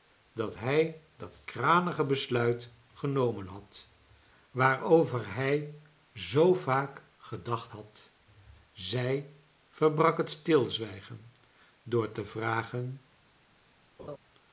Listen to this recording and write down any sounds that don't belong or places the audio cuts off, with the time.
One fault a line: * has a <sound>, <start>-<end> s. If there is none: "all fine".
* has a laugh, 14.0-14.2 s